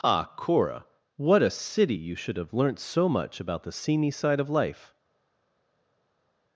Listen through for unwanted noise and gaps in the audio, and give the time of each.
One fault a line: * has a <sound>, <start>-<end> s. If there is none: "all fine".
all fine